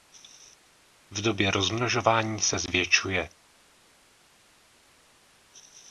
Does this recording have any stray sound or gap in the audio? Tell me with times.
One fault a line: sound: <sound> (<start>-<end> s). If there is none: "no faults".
no faults